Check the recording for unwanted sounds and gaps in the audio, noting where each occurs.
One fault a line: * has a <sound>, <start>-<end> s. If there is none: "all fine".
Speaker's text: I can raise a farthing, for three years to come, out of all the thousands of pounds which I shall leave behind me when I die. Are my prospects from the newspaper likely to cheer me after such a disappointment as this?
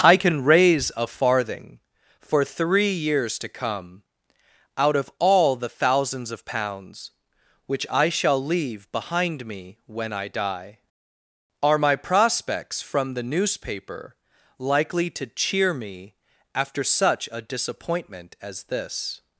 all fine